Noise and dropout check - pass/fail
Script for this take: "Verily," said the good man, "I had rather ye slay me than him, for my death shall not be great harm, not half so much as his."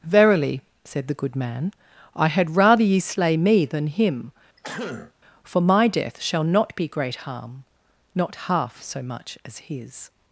fail